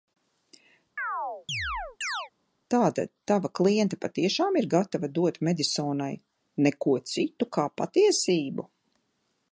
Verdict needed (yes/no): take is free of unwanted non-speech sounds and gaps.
no